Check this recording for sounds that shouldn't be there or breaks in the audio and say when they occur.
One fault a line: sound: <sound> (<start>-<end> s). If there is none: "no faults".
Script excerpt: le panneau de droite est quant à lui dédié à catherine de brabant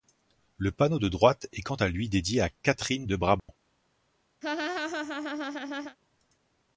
sound: dropout (3.4-3.5 s)
sound: laugh (4.4-6.0 s)